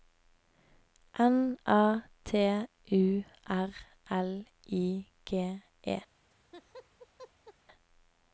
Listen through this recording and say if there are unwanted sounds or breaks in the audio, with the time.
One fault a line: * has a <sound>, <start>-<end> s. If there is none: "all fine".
* has a laugh, 6.2-7.5 s